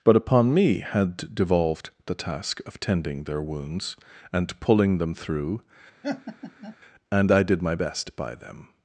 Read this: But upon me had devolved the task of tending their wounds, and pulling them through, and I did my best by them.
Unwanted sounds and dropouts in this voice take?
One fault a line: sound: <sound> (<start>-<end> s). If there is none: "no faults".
sound: laugh (6.0-6.8 s)